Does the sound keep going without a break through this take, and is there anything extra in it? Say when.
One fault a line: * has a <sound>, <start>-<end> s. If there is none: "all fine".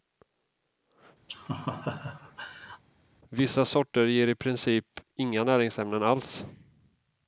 * has a laugh, 1.3-2.8 s